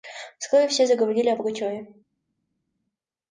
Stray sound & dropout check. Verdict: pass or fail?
pass